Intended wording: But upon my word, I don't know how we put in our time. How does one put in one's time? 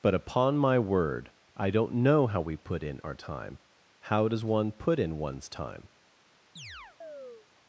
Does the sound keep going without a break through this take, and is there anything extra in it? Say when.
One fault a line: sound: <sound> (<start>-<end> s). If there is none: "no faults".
sound: chirp (6.6-7.5 s)